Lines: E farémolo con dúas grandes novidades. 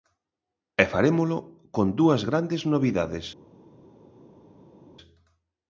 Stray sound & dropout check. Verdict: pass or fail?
pass